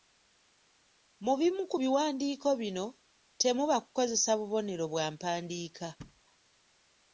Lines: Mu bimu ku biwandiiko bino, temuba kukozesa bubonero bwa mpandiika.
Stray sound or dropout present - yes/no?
yes